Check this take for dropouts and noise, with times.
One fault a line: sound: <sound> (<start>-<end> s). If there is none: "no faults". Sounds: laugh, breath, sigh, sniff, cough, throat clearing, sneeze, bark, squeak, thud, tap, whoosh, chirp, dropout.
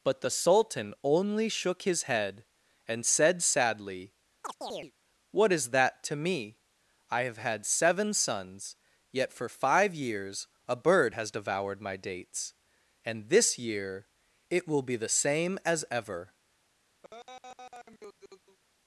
sound: chirp (4.4-4.9 s)
sound: laugh (17.0-18.6 s)